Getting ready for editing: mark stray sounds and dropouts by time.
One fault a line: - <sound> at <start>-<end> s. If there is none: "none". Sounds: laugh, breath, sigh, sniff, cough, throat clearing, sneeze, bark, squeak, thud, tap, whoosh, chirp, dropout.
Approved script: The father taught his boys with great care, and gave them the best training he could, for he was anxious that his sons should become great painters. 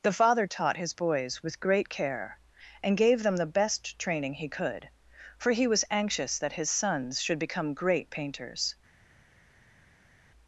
none